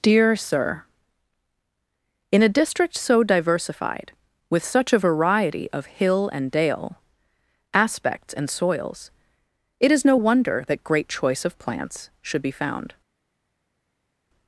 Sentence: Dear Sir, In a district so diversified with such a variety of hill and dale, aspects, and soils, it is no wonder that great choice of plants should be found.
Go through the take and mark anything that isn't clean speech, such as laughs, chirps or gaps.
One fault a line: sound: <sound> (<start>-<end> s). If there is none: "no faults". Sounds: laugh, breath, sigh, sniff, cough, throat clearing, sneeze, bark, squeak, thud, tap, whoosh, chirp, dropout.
no faults